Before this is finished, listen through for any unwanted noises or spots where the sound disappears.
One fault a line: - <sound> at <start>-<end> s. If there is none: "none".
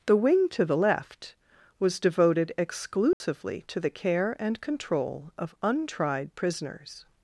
- dropout at 3.1-3.2 s